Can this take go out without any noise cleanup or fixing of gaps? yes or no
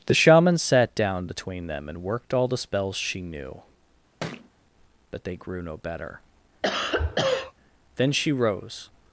no